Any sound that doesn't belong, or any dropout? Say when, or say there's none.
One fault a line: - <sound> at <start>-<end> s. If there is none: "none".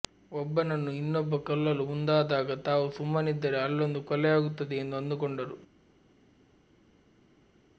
none